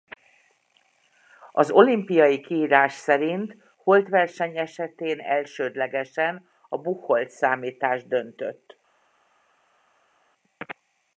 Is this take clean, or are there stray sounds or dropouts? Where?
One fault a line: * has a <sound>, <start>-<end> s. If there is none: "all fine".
all fine